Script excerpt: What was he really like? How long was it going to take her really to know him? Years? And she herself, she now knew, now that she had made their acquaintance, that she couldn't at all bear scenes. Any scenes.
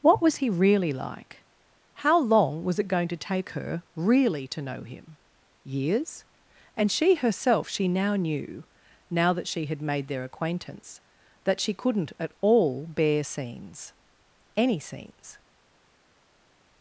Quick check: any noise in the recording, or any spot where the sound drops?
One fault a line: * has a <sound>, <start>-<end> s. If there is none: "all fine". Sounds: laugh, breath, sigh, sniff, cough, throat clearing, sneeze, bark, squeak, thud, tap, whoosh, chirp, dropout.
all fine